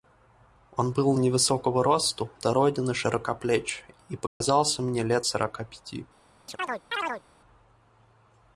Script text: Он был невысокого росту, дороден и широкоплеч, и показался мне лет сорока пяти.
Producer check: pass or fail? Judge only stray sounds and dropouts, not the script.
fail